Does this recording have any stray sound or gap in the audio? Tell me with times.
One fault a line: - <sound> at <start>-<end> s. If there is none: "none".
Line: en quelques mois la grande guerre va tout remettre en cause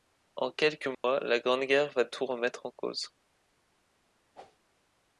- dropout at 0.9-1.0 s
- whoosh at 4.3-4.6 s